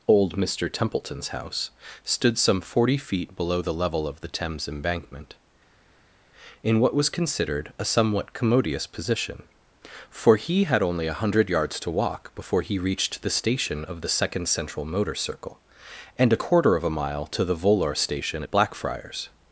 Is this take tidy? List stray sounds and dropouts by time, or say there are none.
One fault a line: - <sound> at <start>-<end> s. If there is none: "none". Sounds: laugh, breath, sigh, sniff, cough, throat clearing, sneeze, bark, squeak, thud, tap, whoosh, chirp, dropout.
none